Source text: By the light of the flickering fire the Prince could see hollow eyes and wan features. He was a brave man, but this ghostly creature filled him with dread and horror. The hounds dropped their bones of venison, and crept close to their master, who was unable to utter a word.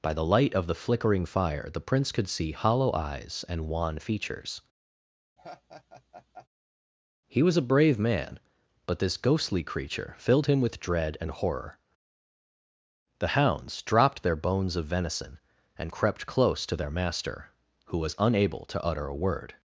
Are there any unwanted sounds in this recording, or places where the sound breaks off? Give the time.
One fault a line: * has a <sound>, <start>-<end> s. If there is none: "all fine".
* has a laugh, 5.4-6.5 s